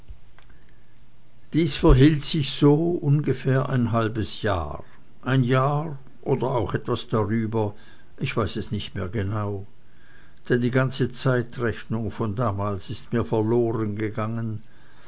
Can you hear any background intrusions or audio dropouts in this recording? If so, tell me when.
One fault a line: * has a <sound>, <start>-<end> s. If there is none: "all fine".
all fine